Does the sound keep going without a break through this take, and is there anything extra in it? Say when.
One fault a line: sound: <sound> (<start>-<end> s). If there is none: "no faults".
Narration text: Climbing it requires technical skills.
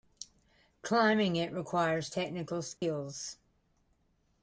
sound: dropout (2.8-2.8 s)